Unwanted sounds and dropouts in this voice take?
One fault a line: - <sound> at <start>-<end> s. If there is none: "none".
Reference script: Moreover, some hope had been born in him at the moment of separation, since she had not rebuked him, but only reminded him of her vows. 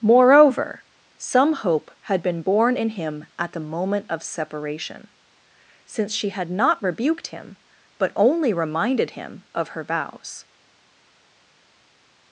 none